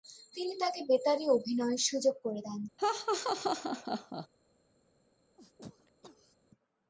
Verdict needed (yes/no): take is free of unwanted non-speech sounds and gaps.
no